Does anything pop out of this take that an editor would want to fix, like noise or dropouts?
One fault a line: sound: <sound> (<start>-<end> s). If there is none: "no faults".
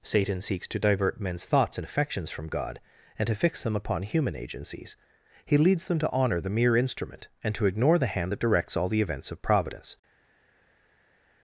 no faults